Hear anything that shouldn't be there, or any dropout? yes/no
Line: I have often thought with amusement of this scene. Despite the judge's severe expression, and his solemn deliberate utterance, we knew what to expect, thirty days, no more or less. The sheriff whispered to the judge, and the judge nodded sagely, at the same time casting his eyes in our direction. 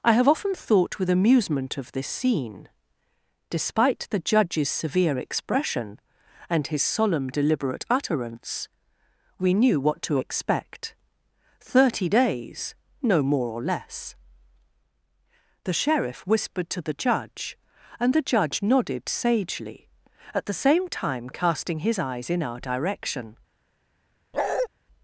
yes